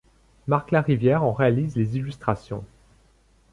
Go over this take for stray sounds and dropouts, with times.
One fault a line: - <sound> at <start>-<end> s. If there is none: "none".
none